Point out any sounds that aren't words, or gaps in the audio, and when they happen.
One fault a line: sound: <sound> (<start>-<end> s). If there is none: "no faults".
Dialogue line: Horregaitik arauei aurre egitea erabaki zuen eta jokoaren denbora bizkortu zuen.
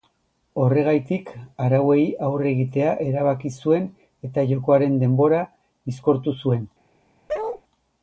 sound: bark (7.3-7.6 s)